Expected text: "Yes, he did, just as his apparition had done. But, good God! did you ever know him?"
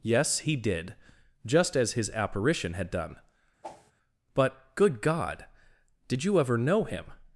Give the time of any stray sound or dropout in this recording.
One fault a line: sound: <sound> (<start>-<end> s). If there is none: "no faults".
sound: whoosh (3.6-3.9 s)